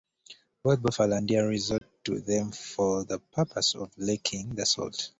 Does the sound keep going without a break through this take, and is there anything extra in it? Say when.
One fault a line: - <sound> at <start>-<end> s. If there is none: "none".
- dropout at 1.8-1.8 s